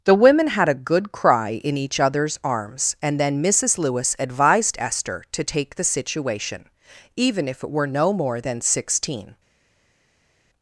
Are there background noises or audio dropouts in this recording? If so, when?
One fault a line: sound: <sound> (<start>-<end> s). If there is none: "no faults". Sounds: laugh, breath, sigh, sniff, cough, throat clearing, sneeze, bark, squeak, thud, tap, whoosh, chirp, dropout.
no faults